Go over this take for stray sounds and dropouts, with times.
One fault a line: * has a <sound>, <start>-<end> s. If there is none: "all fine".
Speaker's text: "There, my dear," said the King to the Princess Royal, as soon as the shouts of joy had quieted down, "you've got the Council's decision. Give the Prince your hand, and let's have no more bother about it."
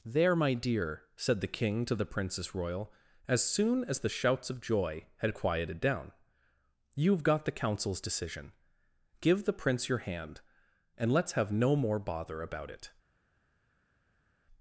all fine